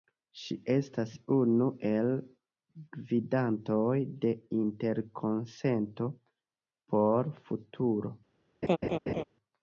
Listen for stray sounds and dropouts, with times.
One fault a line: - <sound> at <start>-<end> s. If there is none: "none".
- laugh at 8.6-9.2 s